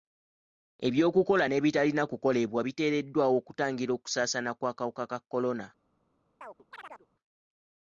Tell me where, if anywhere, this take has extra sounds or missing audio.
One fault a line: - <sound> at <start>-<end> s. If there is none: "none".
- chirp at 6.4-7.1 s